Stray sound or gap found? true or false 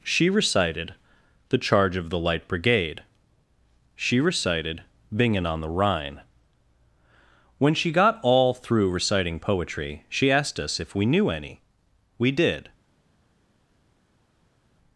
false